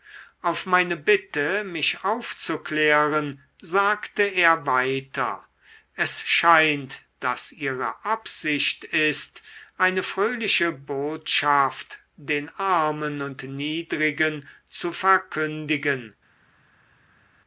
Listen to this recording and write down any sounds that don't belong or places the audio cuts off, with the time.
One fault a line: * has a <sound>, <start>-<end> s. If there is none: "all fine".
all fine